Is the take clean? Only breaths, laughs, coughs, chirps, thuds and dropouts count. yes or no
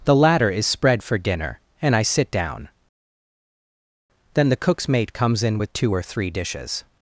yes